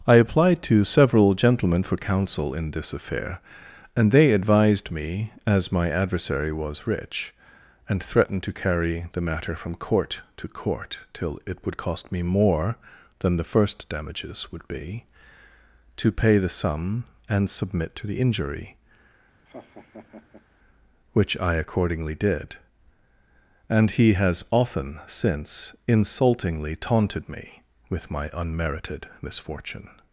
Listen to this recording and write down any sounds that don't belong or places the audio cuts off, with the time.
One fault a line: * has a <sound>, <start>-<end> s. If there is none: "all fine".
* has a laugh, 19.5-20.4 s